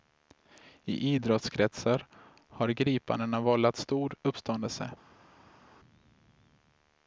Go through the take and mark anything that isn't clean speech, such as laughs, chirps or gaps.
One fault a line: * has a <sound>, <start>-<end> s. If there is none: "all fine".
all fine